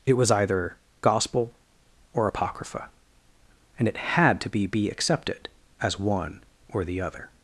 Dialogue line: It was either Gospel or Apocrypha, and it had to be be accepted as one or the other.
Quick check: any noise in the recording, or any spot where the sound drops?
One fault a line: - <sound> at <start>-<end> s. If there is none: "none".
none